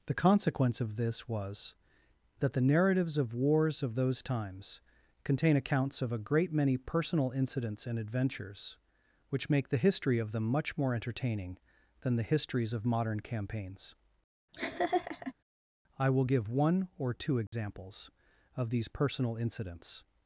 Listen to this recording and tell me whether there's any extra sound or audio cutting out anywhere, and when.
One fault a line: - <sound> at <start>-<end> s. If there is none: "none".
- laugh at 14.5-15.3 s
- dropout at 17.5-17.5 s